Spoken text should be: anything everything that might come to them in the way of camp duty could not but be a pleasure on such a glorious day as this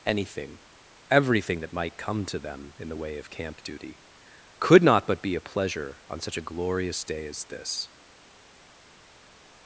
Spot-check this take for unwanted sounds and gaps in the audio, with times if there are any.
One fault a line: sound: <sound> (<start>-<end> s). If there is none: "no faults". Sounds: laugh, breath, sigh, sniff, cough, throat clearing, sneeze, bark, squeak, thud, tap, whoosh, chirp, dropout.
no faults